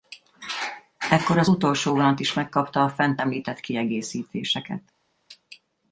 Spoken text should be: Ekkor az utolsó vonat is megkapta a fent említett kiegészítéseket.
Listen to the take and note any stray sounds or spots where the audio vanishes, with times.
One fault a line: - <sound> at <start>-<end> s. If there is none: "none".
none